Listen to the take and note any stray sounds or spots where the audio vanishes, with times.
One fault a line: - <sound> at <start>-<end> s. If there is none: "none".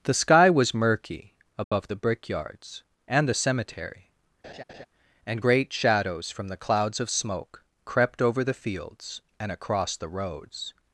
- dropout at 1.6-1.7 s
- laugh at 4.4-4.9 s